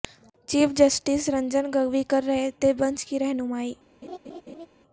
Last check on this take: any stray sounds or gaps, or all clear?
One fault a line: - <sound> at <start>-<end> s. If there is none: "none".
- laugh at 4.0-4.7 s